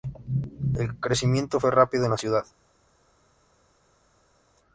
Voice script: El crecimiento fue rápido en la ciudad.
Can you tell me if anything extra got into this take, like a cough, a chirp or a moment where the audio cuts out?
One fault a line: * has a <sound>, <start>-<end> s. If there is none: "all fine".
all fine